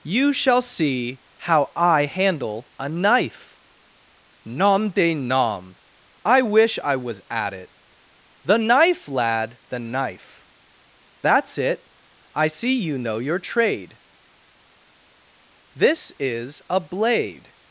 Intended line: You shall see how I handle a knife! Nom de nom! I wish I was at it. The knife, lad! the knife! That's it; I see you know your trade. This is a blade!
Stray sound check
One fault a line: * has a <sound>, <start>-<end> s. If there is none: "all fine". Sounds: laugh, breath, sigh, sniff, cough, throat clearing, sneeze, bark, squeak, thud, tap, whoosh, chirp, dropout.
all fine